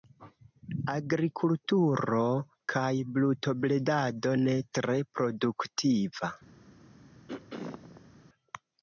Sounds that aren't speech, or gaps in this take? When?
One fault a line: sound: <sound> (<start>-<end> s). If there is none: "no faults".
sound: throat clearing (7.3-8.2 s)